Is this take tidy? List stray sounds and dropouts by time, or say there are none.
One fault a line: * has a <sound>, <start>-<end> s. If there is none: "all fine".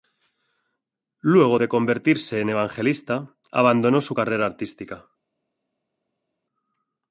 all fine